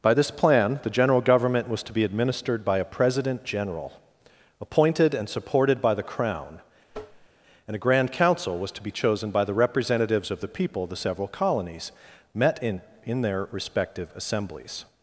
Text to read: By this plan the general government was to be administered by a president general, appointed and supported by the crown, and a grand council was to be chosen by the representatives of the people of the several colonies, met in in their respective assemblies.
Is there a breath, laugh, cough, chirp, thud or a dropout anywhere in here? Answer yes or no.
yes